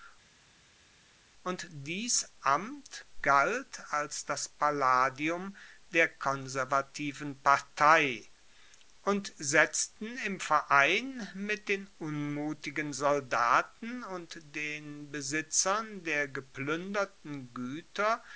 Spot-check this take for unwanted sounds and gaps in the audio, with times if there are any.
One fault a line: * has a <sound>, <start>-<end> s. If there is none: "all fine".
all fine